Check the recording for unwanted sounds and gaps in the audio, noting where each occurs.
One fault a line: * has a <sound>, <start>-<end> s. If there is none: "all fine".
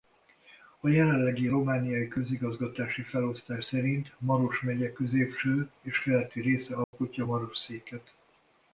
* has a dropout, 6.8-6.9 s